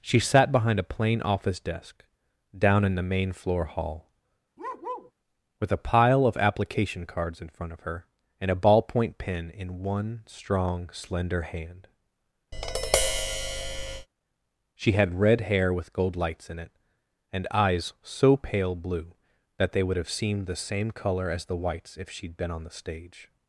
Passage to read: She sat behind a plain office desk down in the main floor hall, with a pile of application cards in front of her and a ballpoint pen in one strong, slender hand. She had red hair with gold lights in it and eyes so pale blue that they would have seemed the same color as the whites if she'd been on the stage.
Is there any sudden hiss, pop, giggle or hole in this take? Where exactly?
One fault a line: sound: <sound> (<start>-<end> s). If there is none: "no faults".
sound: bark (4.6-5.1 s)
sound: tap (12.5-14.1 s)